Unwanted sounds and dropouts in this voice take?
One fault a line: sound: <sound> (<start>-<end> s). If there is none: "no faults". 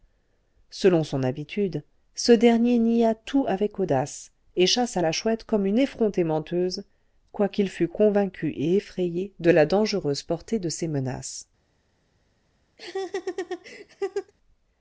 sound: laugh (12.8-14.3 s)